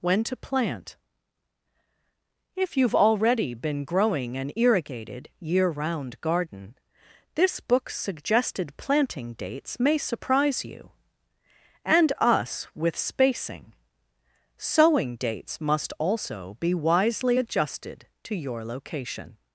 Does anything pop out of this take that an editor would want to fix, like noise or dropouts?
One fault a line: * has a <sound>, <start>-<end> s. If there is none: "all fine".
all fine